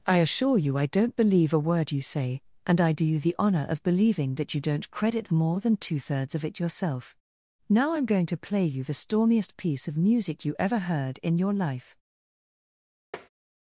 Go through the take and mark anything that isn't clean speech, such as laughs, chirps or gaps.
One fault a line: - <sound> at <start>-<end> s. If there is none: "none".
- tap at 13.1-13.3 s